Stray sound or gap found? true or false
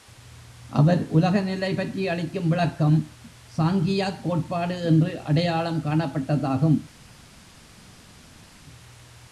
false